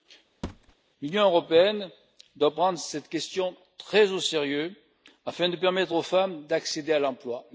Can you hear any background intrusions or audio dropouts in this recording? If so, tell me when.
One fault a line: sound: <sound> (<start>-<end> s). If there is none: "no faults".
sound: thud (0.4-0.8 s)